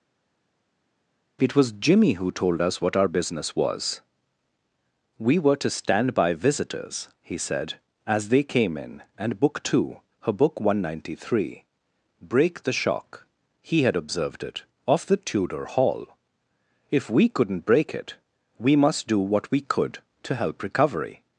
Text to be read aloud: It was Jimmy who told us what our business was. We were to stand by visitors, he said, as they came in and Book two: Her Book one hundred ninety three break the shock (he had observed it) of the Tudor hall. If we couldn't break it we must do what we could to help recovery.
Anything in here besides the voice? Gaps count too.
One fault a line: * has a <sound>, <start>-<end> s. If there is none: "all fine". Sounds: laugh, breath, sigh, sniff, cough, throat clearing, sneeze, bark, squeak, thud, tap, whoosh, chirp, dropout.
all fine